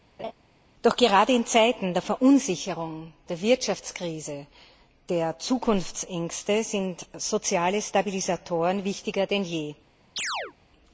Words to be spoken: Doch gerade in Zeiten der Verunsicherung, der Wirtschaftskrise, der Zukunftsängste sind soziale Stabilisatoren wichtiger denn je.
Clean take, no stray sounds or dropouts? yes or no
no